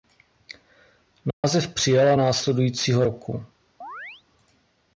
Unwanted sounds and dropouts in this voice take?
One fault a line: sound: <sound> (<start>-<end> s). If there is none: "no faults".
sound: dropout (1.3-1.4 s)
sound: chirp (3.8-4.2 s)